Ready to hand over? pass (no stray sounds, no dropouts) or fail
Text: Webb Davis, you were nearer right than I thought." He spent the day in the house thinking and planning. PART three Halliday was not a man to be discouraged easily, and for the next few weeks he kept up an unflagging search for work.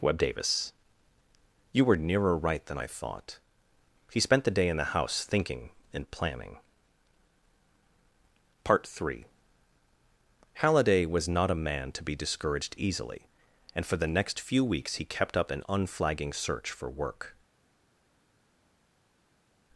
pass